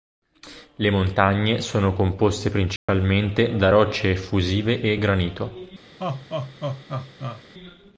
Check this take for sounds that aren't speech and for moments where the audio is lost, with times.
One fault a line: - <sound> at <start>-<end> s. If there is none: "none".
- dropout at 2.8-2.9 s
- laugh at 6.0-7.4 s